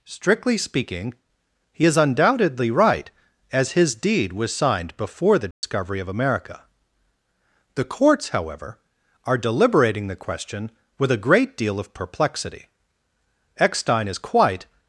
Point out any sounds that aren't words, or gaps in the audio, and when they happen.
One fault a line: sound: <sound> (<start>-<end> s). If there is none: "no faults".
sound: dropout (5.5-5.6 s)